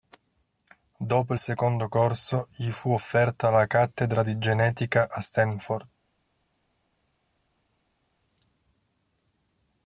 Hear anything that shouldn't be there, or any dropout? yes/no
no